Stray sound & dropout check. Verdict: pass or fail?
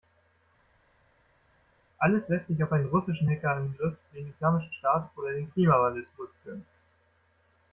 pass